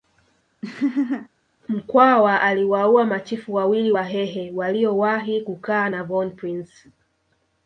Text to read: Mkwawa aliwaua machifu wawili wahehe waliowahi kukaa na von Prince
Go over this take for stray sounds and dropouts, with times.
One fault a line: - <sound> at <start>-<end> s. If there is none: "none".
- laugh at 0.6-1.3 s